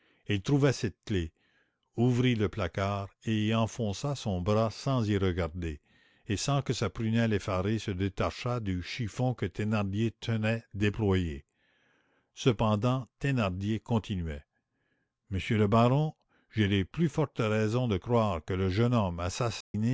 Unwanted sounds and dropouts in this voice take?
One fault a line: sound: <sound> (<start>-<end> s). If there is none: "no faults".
sound: dropout (19.6-19.7 s)